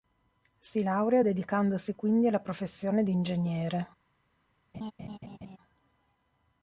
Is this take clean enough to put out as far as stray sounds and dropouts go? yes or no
no